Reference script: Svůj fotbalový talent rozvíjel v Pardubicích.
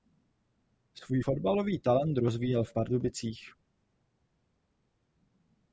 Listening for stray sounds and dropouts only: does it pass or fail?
pass